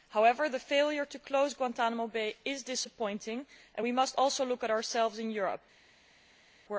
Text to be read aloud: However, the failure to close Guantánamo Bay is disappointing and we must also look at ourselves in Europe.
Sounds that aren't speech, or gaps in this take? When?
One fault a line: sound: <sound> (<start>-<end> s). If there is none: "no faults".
no faults